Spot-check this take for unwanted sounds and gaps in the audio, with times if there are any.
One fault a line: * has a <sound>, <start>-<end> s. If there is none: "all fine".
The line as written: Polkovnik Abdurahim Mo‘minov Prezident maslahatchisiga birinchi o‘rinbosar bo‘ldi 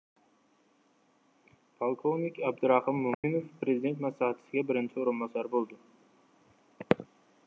* has a dropout, 3.1-3.2 s